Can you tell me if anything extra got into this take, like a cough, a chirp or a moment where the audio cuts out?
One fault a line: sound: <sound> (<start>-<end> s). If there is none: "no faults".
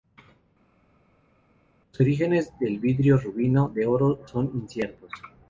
no faults